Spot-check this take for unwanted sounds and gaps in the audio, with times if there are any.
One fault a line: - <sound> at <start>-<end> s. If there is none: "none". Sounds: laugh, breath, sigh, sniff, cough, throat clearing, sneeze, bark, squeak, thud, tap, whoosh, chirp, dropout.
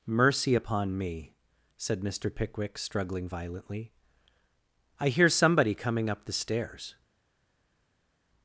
none